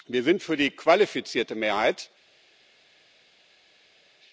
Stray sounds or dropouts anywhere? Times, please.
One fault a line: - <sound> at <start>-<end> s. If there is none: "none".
none